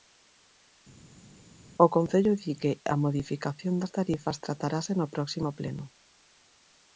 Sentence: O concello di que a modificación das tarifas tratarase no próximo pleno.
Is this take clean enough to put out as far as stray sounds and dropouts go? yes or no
yes